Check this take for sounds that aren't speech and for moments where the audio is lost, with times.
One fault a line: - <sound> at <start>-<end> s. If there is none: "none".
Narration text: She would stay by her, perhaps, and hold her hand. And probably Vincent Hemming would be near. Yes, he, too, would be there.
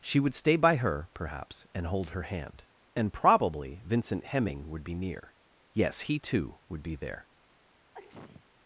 - sneeze at 7.9-8.5 s